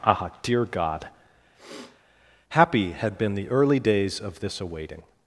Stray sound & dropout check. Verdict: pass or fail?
fail